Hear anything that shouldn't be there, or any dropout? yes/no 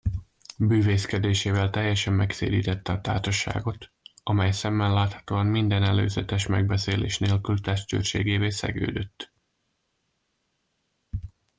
no